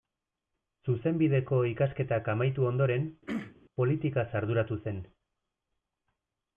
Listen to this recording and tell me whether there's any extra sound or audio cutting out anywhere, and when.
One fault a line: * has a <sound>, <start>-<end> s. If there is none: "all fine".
* has a throat clearing, 3.3-3.5 s